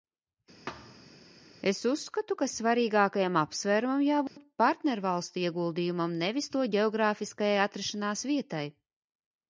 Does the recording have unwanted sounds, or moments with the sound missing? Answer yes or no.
yes